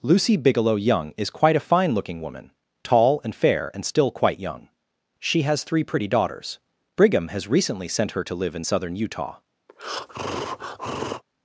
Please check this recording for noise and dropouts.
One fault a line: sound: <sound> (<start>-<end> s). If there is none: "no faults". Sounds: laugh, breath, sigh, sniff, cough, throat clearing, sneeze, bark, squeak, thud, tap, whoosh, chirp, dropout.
sound: breath (9.7-11.2 s)